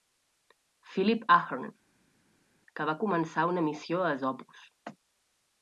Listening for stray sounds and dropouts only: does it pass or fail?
pass